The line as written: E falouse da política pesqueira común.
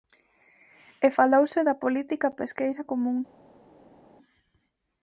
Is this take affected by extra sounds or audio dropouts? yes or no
no